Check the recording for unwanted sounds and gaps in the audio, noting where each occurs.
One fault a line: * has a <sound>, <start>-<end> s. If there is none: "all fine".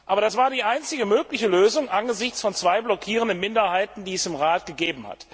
all fine